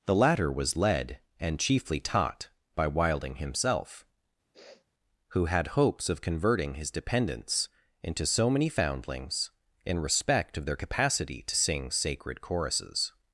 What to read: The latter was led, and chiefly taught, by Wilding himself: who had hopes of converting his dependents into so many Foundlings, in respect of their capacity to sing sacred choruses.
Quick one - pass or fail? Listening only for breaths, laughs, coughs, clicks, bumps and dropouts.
fail